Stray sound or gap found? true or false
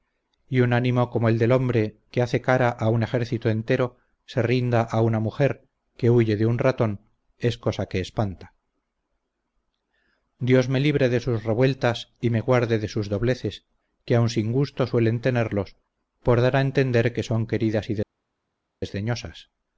false